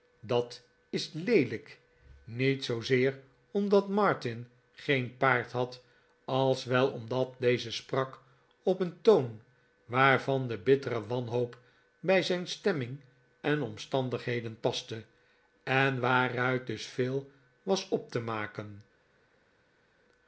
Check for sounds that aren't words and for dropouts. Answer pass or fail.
pass